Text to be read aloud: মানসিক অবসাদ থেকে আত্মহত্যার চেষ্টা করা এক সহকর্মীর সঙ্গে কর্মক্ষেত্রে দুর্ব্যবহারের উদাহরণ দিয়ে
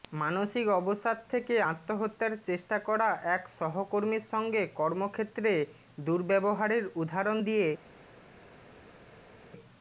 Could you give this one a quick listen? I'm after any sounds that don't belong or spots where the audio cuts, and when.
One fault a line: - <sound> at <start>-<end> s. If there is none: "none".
none